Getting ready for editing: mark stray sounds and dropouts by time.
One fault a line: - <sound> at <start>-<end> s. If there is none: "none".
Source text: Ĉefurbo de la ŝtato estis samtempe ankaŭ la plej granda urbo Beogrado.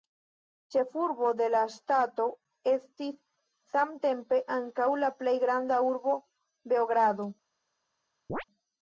- chirp at 8.3-8.4 s